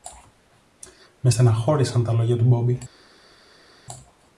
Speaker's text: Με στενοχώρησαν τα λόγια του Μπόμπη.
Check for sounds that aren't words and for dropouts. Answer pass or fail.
pass